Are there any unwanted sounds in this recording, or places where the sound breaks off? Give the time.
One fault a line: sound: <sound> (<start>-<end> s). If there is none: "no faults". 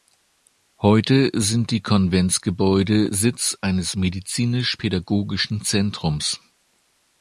no faults